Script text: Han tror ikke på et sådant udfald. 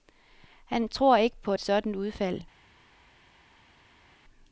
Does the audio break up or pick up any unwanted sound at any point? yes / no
no